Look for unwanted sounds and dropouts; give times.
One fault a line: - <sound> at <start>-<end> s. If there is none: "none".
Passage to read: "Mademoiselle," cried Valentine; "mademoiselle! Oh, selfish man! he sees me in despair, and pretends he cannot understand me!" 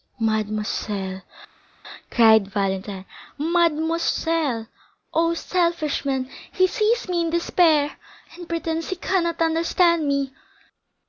none